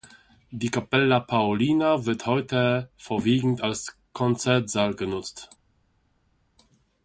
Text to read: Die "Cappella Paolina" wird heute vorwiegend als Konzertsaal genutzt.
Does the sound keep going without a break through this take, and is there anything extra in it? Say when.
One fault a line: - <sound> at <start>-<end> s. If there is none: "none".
none